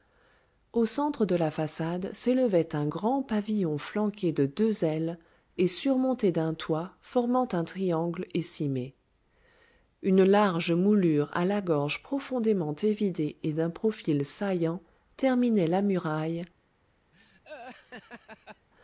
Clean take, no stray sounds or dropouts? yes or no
no